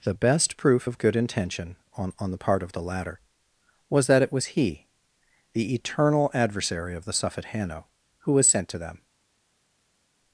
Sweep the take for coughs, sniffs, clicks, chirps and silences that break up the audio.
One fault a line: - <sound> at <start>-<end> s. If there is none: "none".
none